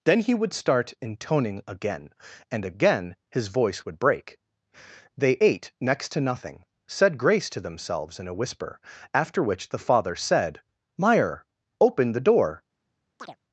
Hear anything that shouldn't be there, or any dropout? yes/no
yes